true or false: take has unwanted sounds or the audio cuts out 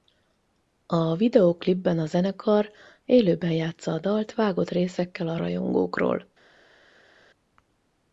false